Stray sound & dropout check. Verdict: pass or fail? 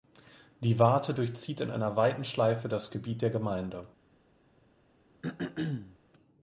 fail